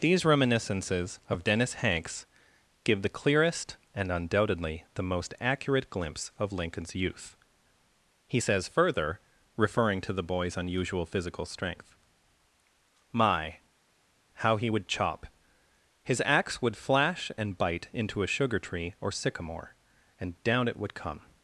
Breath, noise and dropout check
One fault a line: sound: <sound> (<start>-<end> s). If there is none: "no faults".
no faults